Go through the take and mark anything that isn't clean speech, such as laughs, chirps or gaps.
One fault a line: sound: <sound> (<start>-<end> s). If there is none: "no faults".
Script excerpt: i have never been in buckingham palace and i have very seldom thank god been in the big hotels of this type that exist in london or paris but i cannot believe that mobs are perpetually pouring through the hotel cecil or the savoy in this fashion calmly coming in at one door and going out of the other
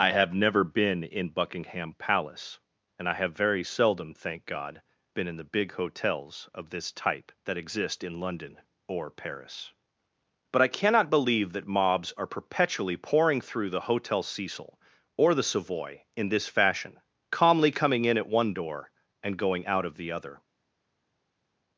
no faults